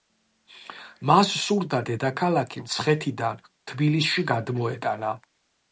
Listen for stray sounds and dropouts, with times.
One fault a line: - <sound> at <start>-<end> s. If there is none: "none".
none